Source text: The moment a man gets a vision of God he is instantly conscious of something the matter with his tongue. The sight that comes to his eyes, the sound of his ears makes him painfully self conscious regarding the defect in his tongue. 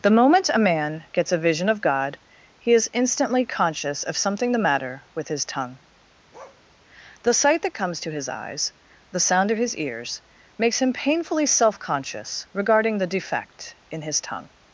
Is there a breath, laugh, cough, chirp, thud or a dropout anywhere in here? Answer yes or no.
yes